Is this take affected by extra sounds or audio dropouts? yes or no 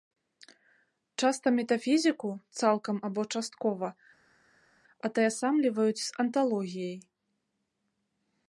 no